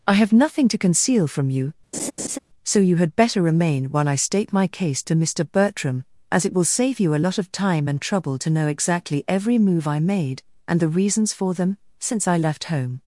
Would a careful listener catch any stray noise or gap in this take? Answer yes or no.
yes